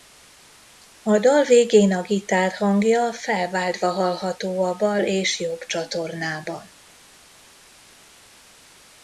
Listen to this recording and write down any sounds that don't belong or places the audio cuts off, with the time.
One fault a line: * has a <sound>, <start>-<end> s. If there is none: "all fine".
all fine